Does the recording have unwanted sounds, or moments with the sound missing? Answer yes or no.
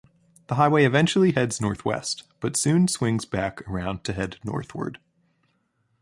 no